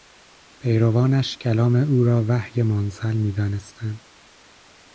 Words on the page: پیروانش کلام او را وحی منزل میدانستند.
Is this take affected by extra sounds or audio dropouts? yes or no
no